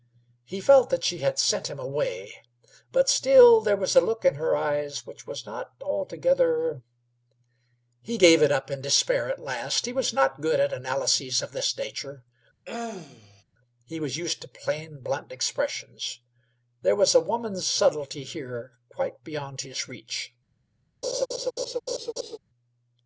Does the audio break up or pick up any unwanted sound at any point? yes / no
yes